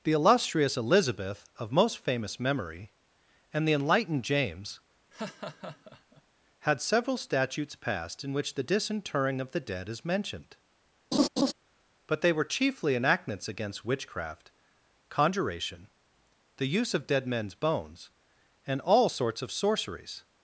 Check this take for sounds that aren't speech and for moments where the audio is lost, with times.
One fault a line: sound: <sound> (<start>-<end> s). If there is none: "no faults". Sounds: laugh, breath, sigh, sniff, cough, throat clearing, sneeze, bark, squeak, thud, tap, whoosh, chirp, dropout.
sound: laugh (5.1-6.2 s)
sound: laugh (11.1-11.5 s)